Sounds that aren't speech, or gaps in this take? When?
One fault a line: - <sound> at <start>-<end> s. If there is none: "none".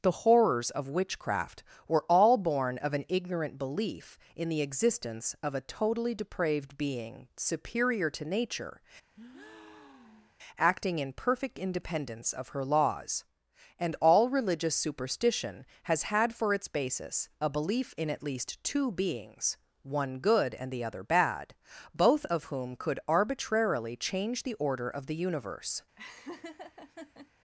- breath at 9.1-10.4 s
- laugh at 26.0-27.3 s